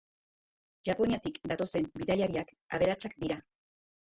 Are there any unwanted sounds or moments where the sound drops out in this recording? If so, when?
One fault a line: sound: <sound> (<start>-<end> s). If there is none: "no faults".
no faults